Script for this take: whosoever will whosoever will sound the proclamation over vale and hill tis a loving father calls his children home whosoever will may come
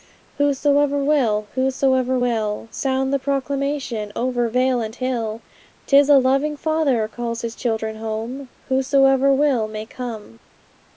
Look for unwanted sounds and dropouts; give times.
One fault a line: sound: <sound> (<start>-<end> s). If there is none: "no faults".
no faults